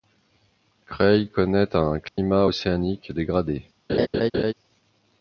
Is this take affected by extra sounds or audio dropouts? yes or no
yes